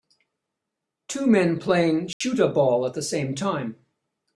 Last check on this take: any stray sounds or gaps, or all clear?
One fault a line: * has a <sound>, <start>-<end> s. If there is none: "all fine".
* has a dropout, 2.1-2.2 s